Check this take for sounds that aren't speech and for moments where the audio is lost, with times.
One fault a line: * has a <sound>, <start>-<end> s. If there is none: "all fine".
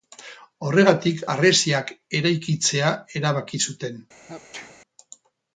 * has a sneeze, 4.3-4.8 s